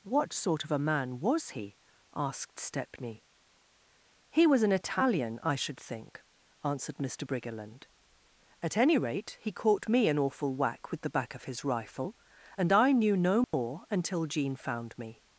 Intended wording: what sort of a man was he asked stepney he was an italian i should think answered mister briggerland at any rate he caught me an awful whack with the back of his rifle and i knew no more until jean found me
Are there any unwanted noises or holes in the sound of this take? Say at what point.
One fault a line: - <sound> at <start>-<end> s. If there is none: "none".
- dropout at 13.4-13.5 s